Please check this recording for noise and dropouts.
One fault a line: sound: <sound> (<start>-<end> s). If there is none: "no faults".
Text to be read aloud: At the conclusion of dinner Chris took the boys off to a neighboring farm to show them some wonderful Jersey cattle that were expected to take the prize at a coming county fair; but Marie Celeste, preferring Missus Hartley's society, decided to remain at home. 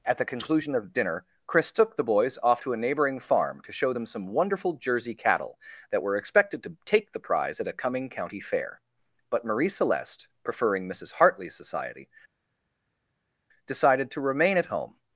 no faults